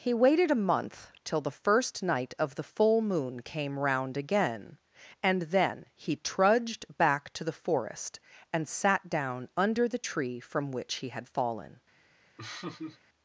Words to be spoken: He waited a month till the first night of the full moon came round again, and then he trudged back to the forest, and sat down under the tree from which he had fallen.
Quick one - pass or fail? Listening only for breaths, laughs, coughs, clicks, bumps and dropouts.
fail